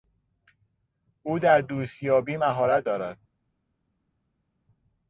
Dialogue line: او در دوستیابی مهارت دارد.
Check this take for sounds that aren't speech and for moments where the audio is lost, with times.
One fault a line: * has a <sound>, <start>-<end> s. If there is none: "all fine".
all fine